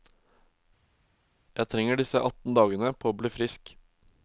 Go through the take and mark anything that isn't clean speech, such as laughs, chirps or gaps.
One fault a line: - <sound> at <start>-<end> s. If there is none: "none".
none